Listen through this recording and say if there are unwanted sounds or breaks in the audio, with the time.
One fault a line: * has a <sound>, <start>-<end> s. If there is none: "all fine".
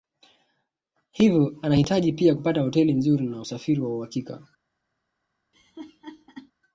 * has a laugh, 5.5-6.5 s